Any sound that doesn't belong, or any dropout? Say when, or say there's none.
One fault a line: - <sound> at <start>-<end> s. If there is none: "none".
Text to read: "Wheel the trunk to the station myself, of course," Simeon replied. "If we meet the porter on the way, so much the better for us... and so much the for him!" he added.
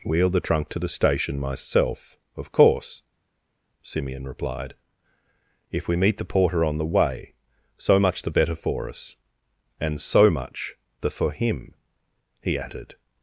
none